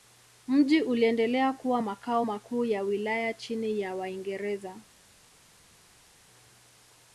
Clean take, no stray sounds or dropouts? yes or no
yes